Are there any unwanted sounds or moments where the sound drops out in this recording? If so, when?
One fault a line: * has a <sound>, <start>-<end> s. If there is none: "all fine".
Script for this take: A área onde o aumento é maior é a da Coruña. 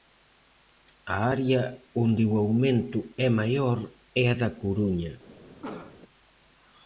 * has a cough, 5.6-6.0 s